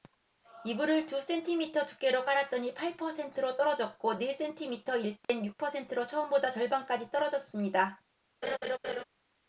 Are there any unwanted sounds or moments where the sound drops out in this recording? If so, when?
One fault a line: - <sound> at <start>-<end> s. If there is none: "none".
- dropout at 5.2-5.3 s
- laugh at 8.4-9.0 s